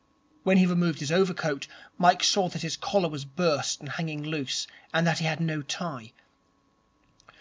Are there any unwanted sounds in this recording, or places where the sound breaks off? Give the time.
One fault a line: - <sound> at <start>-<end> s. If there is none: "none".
none